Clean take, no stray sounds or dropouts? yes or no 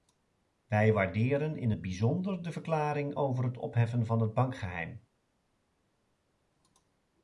yes